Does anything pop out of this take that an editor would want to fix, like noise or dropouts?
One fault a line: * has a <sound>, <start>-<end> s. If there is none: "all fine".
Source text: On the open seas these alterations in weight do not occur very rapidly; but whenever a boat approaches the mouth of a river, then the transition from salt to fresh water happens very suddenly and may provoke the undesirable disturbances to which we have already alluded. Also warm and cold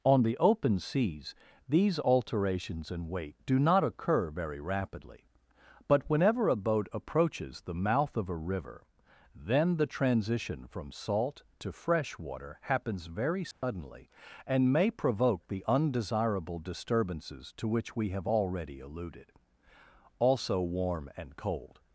* has a dropout, 13.5-13.6 s